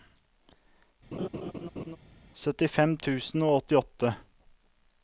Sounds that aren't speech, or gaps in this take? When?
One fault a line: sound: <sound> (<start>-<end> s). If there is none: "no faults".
sound: laugh (1.1-2.0 s)